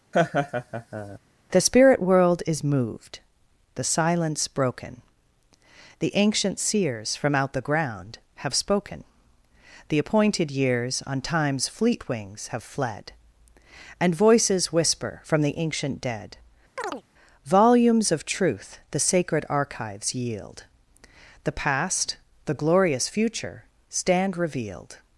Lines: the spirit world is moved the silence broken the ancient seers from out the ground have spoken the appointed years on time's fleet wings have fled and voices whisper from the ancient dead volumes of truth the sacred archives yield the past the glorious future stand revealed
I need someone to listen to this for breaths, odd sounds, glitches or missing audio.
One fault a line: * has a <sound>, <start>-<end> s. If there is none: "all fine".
* has a laugh, 0.1-1.2 s
* has a chirp, 16.8-17.0 s